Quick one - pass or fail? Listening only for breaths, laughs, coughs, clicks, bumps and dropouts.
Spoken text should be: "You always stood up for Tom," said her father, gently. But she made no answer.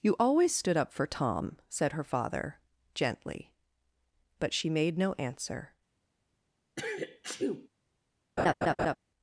fail